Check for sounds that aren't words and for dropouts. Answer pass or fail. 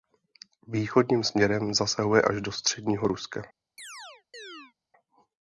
fail